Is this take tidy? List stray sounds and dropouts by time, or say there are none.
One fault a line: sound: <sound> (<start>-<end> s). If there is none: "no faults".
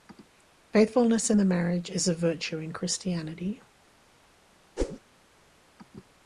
sound: whoosh (4.8-5.0 s)